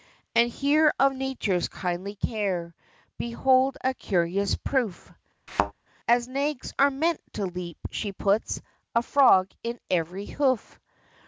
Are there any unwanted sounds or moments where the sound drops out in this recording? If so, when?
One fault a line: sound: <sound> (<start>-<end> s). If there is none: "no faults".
sound: thud (5.5-5.7 s)